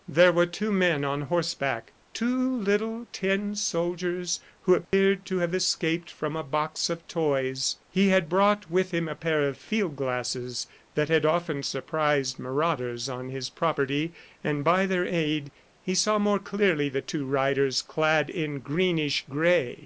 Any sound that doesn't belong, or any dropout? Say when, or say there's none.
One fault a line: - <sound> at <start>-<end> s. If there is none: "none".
- dropout at 4.8-4.9 s